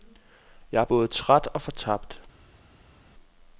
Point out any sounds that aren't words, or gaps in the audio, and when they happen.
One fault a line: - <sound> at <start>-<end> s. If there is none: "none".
none